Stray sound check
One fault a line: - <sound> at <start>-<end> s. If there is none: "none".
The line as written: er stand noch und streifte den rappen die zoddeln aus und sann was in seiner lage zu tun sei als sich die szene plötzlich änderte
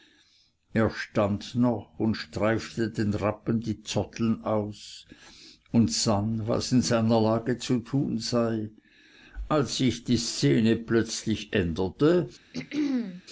- throat clearing at 12.5-13.2 s